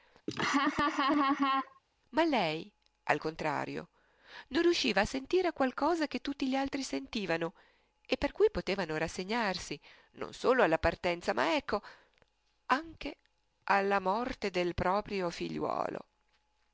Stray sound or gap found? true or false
true